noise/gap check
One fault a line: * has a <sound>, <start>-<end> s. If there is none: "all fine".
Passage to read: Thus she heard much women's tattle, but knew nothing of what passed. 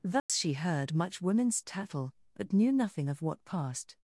* has a dropout, 0.2-0.3 s